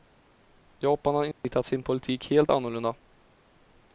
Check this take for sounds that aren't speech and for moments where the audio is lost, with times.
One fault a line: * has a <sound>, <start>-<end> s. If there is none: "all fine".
* has a dropout, 1.3-1.4 s